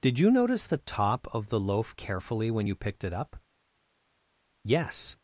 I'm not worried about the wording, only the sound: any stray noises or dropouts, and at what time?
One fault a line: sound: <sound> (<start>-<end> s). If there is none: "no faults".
no faults